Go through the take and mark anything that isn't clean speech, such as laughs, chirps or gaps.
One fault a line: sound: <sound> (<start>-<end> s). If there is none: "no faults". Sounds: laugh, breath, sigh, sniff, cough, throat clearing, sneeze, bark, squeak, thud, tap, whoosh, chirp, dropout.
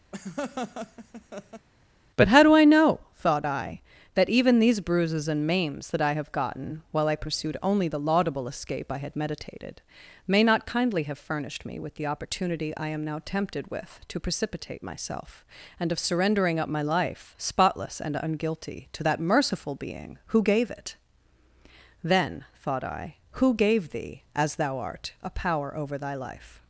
sound: laugh (0.1-1.7 s)